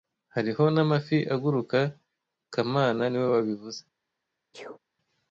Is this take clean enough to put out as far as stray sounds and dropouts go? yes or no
no